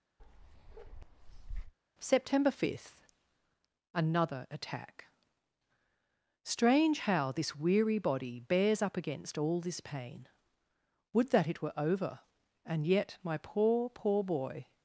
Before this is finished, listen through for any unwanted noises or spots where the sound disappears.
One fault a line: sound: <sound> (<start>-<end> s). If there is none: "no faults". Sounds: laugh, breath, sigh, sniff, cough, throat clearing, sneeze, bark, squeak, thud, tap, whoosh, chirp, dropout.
sound: bark (0.2-1.7 s)